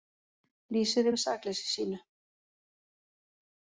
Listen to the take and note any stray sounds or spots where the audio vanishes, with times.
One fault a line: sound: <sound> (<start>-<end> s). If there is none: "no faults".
no faults